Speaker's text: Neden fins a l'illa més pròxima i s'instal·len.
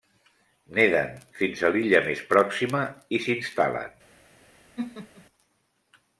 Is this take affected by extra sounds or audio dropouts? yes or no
yes